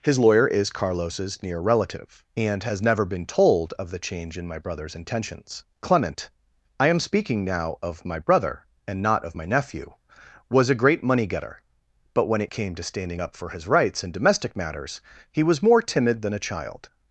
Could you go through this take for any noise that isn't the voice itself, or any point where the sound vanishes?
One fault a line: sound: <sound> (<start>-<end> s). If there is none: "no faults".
no faults